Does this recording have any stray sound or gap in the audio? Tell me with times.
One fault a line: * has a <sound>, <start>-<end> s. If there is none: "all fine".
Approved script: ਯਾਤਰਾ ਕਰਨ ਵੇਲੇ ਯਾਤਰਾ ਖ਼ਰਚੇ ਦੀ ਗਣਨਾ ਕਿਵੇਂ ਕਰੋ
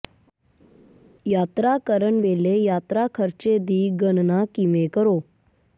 all fine